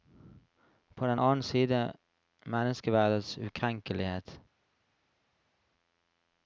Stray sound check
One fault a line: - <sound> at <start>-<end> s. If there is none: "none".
none